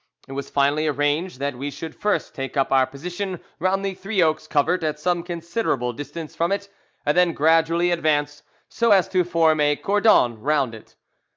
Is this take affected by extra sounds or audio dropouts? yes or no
no